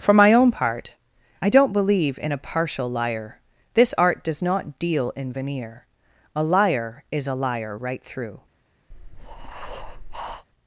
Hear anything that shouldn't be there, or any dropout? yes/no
yes